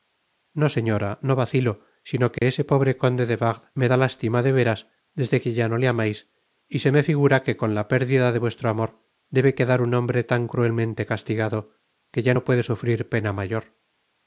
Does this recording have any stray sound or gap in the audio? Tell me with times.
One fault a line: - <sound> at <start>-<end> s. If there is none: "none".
- dropout at 2.4-2.4 s